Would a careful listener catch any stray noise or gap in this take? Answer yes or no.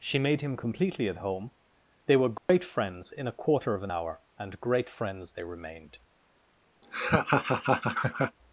yes